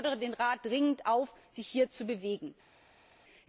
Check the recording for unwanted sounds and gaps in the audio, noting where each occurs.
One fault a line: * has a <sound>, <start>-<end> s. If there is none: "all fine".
all fine